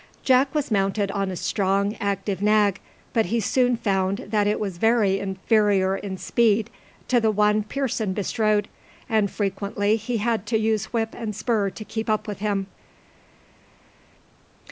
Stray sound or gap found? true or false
false